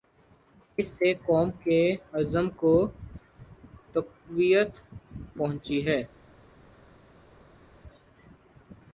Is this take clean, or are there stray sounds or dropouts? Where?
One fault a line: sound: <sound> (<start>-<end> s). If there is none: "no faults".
no faults